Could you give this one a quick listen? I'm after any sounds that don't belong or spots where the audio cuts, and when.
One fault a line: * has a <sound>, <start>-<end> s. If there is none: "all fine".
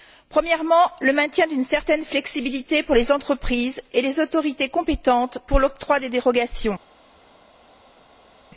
all fine